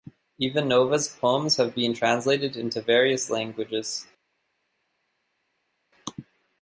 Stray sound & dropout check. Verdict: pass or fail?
pass